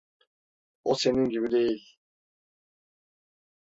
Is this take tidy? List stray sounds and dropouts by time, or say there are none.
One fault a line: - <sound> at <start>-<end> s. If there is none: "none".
none